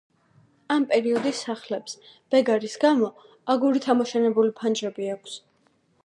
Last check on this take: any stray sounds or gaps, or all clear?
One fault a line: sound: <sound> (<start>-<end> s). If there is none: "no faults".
no faults